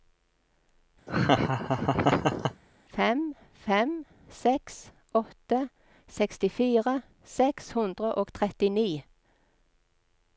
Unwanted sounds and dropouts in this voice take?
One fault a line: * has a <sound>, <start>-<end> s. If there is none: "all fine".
* has a laugh, 1.1-2.6 s